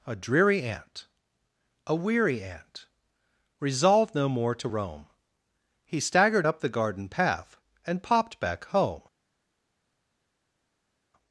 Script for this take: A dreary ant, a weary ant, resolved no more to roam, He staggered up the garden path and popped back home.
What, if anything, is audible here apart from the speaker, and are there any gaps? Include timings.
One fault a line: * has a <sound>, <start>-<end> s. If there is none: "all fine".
all fine